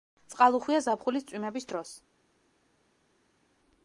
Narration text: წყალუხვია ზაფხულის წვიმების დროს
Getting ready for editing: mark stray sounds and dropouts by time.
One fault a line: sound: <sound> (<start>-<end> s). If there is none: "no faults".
no faults